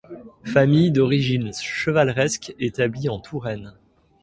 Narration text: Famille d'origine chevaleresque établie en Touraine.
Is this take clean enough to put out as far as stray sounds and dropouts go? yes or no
yes